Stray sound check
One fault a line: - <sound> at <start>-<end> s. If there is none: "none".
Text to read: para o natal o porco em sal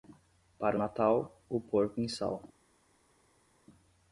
none